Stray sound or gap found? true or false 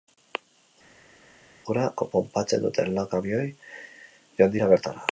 false